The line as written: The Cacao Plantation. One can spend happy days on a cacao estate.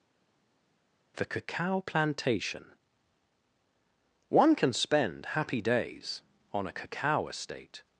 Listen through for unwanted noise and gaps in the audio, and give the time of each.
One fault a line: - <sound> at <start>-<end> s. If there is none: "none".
none